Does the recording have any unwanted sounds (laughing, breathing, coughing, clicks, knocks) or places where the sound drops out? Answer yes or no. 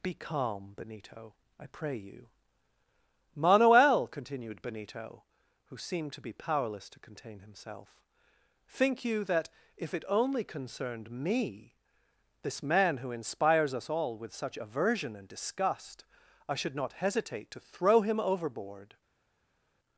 no